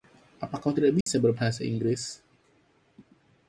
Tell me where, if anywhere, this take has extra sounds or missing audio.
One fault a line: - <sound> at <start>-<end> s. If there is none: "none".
- dropout at 1.0-1.1 s